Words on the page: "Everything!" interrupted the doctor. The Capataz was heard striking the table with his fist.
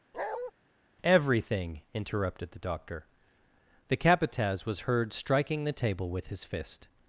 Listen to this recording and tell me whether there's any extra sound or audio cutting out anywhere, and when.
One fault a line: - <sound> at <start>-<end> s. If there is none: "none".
- bark at 0.1-0.5 s